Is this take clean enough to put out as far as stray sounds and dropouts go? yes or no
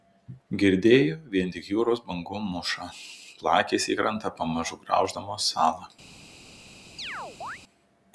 no